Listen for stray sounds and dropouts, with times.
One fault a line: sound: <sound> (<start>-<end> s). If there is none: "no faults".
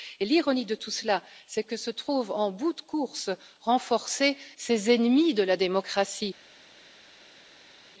no faults